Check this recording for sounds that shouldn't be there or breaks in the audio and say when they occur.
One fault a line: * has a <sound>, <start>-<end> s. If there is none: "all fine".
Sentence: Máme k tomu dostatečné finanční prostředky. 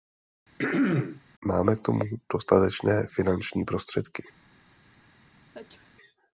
* has a throat clearing, 0.6-1.2 s
* has a sneeze, 5.5-5.9 s